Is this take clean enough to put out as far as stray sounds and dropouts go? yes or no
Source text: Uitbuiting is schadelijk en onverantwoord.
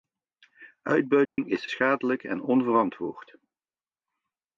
no